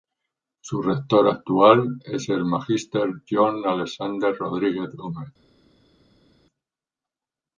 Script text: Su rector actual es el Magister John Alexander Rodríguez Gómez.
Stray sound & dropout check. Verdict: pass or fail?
pass